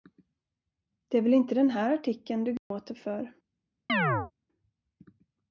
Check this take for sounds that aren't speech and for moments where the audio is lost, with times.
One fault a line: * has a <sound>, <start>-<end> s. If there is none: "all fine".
* has a dropout, 2.6-2.7 s
* has a chirp, 3.9-4.3 s